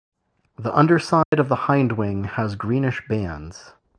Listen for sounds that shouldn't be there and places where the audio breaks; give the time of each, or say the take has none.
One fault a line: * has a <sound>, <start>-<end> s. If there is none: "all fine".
* has a dropout, 1.2-1.3 s